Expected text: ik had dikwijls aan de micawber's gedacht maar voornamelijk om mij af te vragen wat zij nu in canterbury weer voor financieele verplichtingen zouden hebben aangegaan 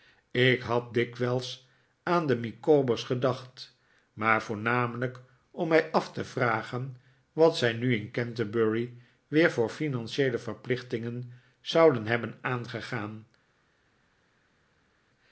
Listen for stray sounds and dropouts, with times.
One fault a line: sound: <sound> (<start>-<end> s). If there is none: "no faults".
no faults